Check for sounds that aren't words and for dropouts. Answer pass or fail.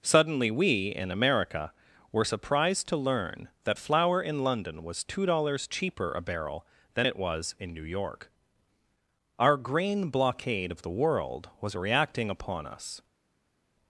pass